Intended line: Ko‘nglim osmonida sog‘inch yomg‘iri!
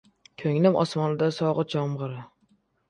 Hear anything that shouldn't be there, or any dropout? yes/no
no